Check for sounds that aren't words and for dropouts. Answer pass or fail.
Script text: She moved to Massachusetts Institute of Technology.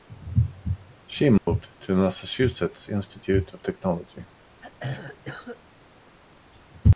fail